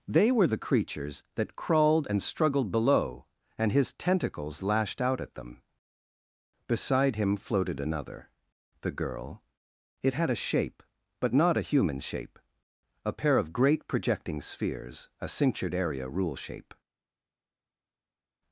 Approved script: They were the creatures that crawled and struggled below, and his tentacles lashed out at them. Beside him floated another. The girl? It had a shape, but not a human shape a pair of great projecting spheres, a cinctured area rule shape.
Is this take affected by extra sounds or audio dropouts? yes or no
no